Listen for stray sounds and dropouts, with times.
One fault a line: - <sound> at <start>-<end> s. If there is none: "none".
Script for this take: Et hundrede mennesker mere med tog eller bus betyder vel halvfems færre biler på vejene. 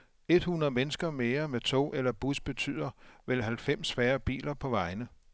none